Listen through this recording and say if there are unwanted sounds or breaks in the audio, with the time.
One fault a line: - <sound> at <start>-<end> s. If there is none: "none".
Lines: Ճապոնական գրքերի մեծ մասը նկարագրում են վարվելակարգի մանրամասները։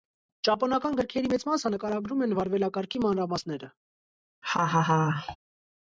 - laugh at 4.4-5.4 s